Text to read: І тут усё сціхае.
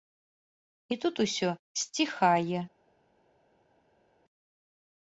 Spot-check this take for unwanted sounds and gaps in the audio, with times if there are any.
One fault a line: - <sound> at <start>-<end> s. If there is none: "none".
none